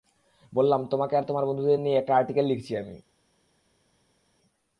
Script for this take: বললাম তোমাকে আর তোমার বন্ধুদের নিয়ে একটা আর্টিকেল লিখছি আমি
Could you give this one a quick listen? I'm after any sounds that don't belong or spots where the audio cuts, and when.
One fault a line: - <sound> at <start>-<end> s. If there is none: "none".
none